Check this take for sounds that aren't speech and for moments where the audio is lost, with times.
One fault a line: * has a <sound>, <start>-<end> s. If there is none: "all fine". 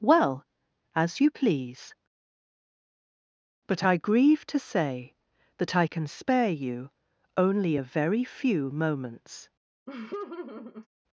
* has a laugh, 9.9-10.9 s